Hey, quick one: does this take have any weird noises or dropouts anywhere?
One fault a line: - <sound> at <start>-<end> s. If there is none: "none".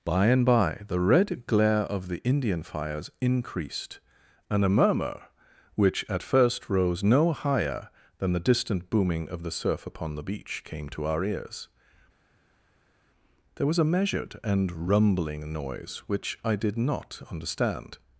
none